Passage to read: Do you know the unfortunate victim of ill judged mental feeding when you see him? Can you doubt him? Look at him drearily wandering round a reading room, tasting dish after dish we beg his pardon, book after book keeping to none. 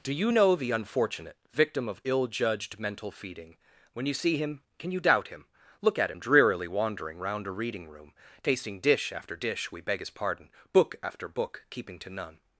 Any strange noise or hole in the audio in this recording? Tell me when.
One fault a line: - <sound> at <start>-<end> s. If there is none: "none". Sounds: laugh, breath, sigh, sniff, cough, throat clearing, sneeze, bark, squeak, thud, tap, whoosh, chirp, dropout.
none